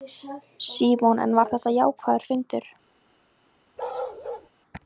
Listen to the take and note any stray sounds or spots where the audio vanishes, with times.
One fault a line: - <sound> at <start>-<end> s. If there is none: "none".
- bark at 3.8-4.5 s